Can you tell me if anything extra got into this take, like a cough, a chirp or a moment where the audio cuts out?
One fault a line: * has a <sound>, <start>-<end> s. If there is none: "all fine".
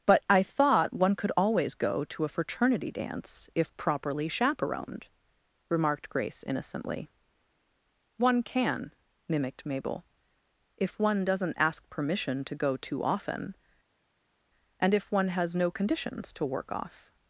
all fine